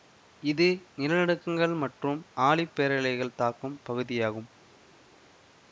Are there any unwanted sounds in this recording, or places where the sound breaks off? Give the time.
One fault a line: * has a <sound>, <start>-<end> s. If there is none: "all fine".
all fine